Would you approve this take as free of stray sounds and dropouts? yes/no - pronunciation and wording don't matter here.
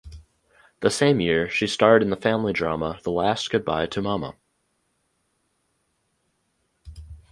yes